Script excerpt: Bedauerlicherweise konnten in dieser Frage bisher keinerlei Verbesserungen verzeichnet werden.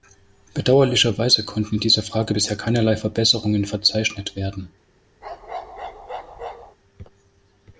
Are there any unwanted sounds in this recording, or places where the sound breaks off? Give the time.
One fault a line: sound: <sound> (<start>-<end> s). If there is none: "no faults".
sound: bark (5.2-6.8 s)